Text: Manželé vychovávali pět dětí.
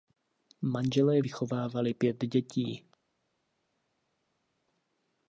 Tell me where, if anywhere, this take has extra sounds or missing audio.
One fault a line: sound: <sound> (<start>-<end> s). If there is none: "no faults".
no faults